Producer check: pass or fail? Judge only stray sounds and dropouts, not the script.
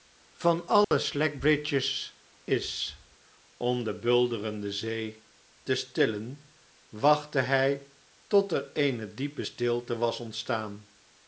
fail